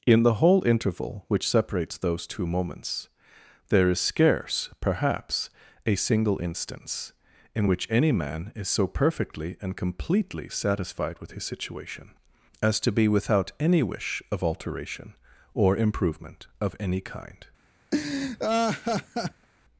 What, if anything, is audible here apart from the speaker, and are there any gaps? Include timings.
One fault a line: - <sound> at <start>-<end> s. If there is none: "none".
- laugh at 17.9-19.5 s